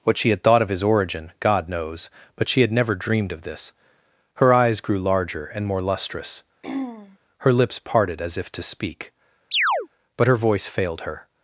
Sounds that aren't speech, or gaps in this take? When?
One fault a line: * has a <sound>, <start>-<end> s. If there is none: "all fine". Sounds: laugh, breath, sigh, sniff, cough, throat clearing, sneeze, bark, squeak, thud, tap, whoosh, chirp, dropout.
* has a throat clearing, 6.6-7.2 s
* has a chirp, 9.5-9.9 s